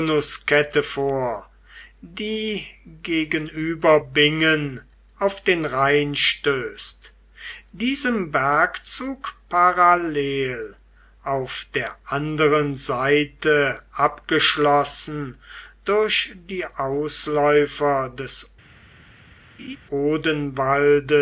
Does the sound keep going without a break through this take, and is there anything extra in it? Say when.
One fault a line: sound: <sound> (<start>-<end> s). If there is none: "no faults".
sound: laugh (19.6-19.8 s)